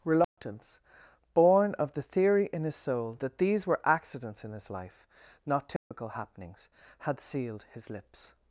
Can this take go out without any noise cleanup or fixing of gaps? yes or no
no